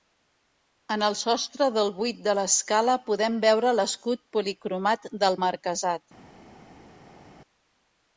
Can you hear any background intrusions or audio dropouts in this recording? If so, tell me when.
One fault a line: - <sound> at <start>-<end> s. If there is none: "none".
none